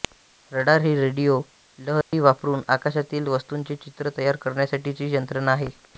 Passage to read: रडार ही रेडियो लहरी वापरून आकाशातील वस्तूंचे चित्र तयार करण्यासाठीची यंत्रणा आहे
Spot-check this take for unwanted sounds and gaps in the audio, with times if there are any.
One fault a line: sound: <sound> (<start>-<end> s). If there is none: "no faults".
sound: dropout (2.0-2.1 s)